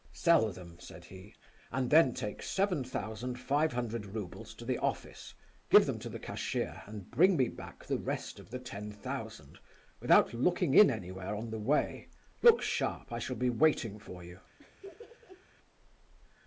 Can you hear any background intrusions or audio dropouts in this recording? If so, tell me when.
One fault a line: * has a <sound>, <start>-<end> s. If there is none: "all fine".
* has a laugh, 14.6-15.5 s